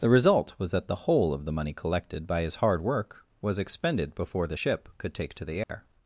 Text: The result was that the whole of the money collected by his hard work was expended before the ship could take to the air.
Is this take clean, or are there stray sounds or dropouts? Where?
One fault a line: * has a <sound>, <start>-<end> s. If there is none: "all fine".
* has a dropout, 5.6-5.7 s